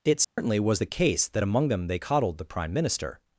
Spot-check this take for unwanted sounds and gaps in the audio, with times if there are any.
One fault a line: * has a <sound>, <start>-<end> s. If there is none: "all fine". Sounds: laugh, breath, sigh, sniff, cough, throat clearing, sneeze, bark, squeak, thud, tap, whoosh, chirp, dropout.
* has a dropout, 0.2-0.4 s